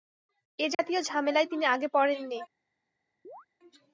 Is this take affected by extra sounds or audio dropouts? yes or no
yes